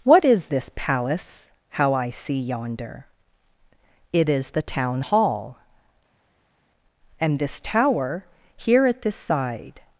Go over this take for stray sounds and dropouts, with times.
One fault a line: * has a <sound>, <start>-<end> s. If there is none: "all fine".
all fine